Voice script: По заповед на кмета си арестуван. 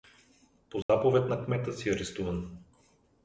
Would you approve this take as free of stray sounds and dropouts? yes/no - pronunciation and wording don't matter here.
no